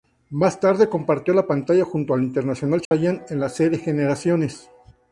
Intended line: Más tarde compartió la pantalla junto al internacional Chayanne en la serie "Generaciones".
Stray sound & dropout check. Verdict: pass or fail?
fail